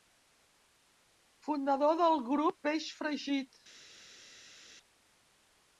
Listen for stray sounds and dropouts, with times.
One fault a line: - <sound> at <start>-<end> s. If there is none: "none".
none